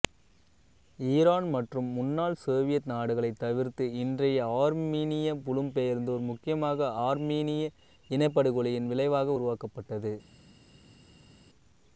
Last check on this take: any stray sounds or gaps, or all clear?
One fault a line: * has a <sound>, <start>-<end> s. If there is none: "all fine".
all fine